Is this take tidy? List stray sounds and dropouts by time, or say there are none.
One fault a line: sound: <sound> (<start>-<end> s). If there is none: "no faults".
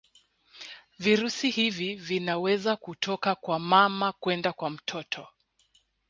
no faults